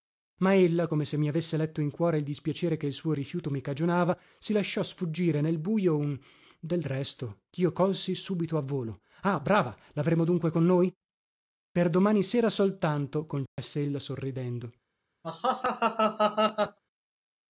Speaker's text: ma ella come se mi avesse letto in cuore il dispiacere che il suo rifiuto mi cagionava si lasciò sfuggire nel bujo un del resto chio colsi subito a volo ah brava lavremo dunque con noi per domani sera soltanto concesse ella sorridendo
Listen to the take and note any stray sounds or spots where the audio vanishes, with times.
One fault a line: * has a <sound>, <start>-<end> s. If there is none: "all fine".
* has a dropout, 13.5-13.6 s
* has a laugh, 15.2-16.8 s